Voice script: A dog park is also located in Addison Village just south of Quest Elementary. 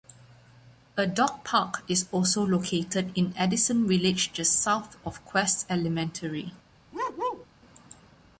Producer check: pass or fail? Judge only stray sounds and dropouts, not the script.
fail